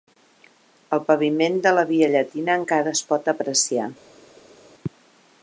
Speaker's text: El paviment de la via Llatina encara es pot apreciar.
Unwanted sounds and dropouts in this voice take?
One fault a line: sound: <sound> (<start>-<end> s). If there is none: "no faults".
no faults